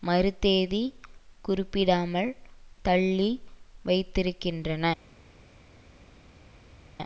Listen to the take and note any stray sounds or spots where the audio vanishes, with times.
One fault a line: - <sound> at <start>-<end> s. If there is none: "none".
none